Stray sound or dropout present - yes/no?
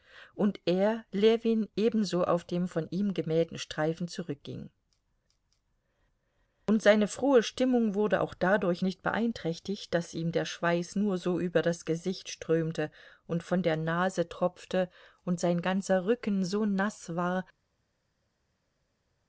no